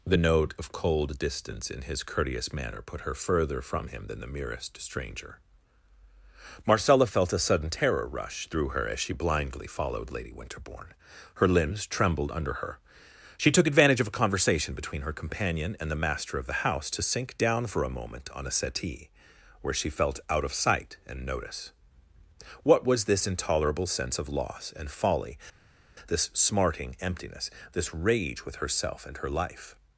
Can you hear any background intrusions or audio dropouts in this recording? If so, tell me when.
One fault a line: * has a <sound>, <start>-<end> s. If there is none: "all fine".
all fine